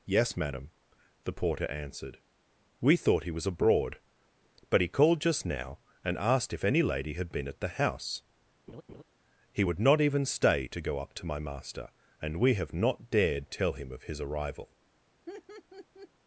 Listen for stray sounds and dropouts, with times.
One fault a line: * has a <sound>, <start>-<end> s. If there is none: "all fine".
* has a laugh, 8.7-9.0 s
* has a laugh, 15.3-16.1 s